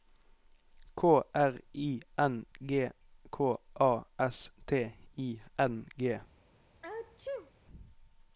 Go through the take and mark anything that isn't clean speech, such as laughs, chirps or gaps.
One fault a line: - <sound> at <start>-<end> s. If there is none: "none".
- sneeze at 6.8-7.5 s